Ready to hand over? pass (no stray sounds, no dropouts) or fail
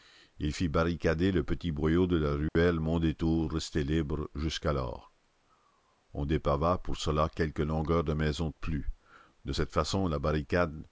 fail